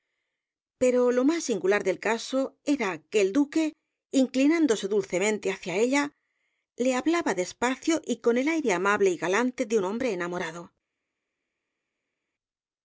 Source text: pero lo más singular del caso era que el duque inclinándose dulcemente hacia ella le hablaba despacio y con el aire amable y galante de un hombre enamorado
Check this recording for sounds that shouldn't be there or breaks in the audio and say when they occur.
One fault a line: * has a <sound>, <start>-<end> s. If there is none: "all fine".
all fine